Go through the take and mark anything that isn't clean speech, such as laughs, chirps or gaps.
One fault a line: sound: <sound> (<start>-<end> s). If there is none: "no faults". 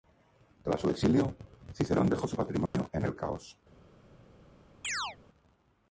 sound: dropout (2.7-2.7 s)
sound: chirp (4.8-5.2 s)